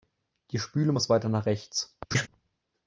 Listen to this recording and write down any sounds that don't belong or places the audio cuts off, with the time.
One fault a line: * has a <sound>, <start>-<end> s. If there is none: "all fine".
* has a laugh, 2.1-2.3 s